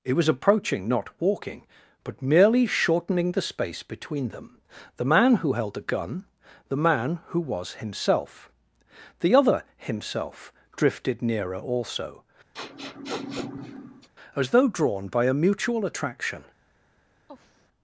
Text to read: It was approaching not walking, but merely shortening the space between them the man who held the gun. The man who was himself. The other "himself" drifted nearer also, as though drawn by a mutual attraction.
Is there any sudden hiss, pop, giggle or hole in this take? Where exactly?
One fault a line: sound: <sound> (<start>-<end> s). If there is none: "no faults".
sound: sniff (12.5-14.1 s)
sound: sigh (17.3-17.7 s)